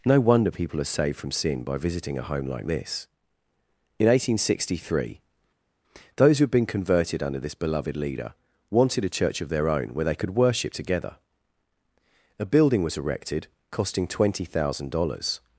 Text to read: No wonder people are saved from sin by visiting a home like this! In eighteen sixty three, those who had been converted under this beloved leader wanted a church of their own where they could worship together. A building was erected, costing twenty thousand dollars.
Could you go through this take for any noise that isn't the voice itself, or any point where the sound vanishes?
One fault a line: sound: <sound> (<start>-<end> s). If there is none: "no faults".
no faults